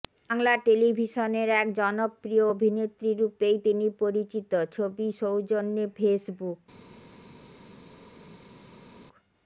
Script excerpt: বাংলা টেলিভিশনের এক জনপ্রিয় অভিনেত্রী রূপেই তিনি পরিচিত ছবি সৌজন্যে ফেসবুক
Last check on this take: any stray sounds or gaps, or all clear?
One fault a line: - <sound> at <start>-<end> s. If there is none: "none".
none